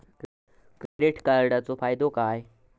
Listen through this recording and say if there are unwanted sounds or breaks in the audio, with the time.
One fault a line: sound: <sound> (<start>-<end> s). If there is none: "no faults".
sound: dropout (0.9-1.0 s)